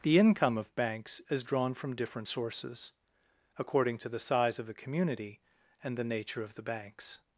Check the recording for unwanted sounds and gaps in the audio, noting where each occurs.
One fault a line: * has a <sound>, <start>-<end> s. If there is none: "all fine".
all fine